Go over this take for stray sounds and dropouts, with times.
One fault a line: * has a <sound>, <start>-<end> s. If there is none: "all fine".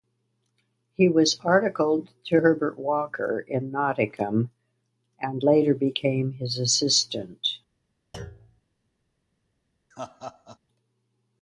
* has a thud, 8.1-8.6 s
* has a laugh, 9.9-10.6 s